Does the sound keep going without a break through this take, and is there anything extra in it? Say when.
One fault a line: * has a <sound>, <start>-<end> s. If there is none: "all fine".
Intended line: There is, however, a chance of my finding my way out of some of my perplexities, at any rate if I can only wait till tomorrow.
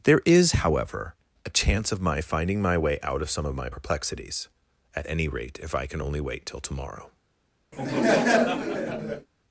* has a laugh, 7.7-9.3 s